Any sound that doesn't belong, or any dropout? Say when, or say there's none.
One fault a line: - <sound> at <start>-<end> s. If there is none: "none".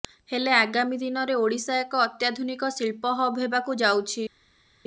none